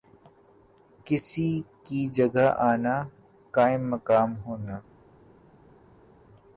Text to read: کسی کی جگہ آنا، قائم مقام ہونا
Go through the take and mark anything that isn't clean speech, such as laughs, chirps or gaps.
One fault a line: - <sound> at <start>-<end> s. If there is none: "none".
none